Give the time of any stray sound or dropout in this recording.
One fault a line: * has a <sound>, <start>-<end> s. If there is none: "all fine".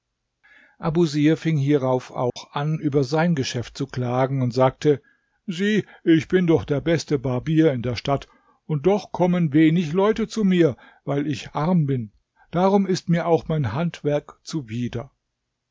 * has a dropout, 2.3-2.4 s